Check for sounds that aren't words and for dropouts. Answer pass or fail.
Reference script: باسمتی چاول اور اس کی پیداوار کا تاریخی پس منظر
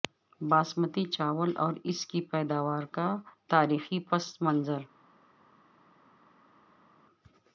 pass